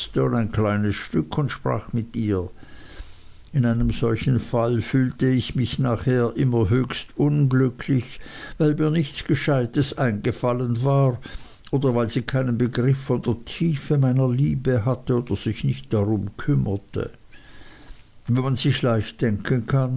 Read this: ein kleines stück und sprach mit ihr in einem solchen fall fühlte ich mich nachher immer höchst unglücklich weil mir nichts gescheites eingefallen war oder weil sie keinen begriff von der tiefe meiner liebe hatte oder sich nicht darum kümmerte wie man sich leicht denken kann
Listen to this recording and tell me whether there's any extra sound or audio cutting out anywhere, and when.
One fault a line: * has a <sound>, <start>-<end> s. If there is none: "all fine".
all fine